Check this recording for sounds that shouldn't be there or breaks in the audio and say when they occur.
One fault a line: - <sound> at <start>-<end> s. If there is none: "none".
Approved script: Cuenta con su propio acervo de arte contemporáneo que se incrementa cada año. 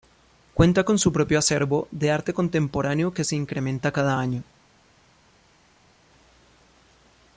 none